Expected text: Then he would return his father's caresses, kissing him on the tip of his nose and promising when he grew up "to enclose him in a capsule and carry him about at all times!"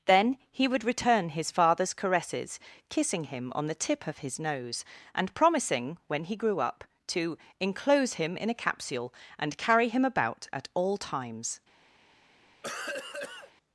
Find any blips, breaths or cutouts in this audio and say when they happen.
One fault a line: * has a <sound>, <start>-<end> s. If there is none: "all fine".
* has a cough, 12.6-13.5 s